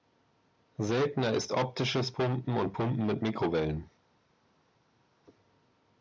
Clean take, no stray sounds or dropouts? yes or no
yes